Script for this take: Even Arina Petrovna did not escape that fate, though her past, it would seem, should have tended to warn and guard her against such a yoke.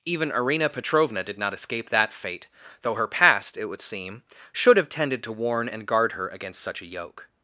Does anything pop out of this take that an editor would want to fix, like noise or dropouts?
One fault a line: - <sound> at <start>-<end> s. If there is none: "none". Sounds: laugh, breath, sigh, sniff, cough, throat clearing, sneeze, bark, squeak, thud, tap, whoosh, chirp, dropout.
none